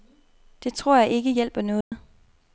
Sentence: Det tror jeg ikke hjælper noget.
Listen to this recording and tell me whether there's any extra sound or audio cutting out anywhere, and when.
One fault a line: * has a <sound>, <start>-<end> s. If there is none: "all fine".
* has a dropout, 1.8-1.9 s